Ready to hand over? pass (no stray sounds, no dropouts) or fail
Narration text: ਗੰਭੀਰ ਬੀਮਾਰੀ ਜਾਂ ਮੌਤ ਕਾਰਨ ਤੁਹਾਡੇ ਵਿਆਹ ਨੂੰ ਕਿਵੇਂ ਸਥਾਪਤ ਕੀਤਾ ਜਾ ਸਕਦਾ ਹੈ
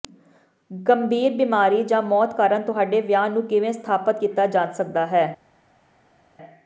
pass